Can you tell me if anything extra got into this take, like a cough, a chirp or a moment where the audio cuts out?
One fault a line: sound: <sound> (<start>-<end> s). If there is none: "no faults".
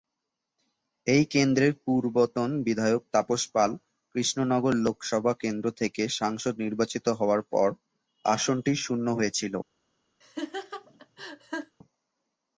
sound: laugh (10.2-11.8 s)